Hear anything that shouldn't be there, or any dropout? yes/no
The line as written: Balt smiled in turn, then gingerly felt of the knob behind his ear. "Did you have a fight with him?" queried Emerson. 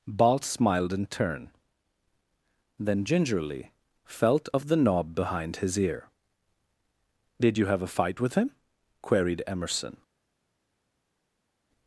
no